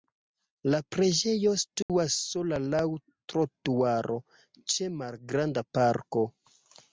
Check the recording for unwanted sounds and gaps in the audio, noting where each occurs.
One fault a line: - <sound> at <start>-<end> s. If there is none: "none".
- dropout at 1.8-1.9 s